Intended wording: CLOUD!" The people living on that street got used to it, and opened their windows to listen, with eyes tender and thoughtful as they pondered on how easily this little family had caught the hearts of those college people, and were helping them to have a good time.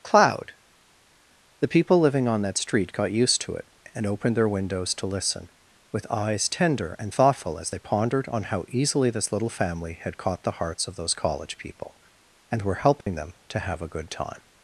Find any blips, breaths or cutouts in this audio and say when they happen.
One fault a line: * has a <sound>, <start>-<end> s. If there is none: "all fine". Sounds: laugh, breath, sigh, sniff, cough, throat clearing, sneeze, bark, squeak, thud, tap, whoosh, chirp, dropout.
* has a dropout, 13.0-13.1 s